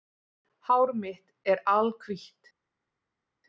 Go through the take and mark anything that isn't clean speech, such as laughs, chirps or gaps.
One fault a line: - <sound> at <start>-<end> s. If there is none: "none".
none